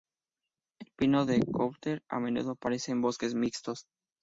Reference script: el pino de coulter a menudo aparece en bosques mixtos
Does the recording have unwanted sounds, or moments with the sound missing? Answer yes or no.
no